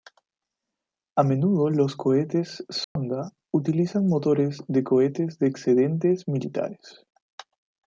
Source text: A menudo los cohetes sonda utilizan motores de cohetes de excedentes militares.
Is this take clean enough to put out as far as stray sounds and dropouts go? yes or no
no